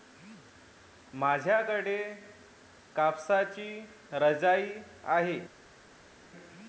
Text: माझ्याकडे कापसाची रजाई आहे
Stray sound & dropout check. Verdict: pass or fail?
pass